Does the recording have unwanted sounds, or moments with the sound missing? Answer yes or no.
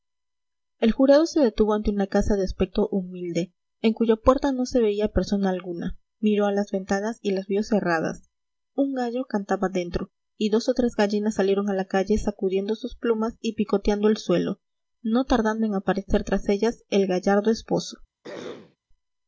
yes